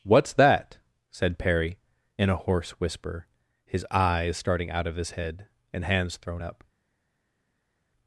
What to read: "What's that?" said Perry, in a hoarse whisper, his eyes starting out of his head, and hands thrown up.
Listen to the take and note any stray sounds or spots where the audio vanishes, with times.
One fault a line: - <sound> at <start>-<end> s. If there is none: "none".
none